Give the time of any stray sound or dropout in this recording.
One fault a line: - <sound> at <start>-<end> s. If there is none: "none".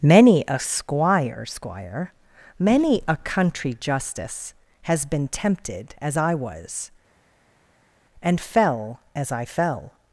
none